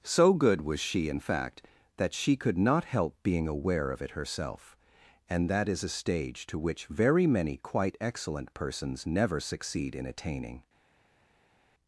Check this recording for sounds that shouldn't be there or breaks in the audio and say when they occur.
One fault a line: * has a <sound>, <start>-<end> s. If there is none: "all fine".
all fine